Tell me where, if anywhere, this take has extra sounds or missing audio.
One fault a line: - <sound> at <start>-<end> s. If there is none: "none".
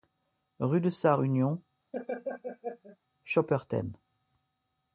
- laugh at 1.9-3.0 s